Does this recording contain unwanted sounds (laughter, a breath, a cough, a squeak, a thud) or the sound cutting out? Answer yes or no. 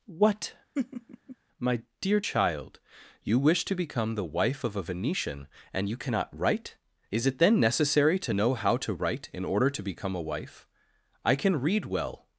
yes